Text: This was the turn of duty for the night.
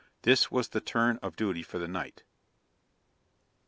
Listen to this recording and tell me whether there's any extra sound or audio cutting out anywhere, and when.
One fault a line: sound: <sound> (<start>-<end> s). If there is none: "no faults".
no faults